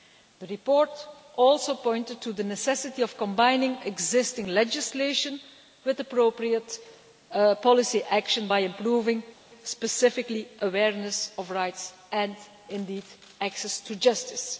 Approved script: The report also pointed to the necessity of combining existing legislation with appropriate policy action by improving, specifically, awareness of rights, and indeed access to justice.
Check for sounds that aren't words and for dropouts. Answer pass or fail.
pass